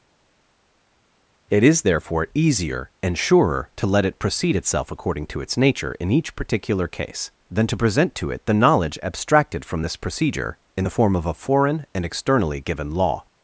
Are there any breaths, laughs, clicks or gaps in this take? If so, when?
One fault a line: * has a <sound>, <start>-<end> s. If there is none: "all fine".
all fine